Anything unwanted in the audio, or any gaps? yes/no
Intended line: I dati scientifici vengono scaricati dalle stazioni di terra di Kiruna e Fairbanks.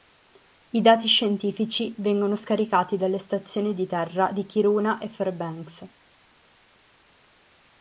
no